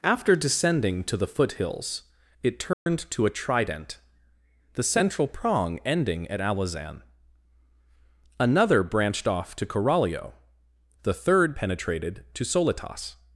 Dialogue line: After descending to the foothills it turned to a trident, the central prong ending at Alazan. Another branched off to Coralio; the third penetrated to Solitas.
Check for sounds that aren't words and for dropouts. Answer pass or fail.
fail